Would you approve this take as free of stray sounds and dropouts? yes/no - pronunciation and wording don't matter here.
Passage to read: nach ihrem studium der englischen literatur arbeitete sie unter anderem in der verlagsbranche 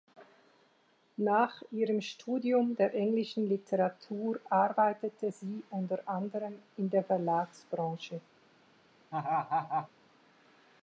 no